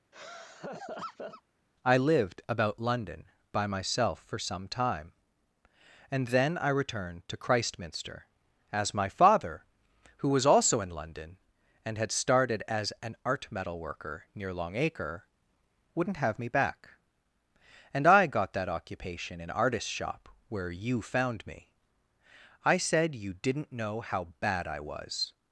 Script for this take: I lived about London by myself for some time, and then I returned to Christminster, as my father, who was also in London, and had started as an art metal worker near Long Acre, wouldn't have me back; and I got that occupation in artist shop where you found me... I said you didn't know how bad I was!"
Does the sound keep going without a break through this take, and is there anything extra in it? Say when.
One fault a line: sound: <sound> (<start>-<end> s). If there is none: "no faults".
sound: laugh (0.1-1.4 s)